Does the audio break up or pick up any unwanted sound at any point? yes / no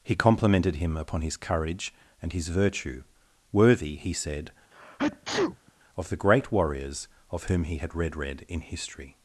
yes